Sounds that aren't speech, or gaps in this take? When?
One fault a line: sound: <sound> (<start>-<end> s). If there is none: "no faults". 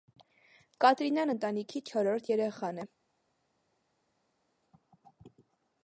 no faults